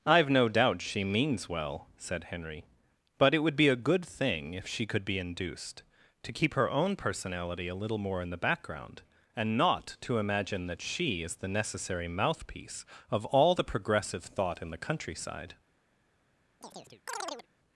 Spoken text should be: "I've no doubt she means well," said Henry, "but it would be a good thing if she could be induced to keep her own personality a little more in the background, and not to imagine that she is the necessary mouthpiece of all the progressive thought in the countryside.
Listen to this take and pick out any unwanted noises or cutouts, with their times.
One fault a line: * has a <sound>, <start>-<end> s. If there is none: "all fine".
* has a chirp, 16.6-17.5 s